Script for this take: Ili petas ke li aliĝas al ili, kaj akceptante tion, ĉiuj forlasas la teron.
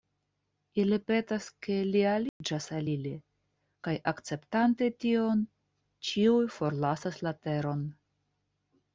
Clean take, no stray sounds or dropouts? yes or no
no